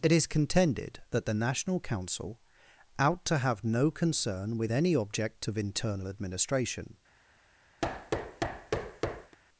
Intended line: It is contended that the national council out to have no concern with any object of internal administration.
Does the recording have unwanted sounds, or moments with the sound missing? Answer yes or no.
yes